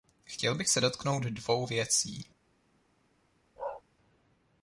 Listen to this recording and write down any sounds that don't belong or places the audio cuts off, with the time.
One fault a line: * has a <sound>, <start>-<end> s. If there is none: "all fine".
* has a bark, 3.6-3.8 s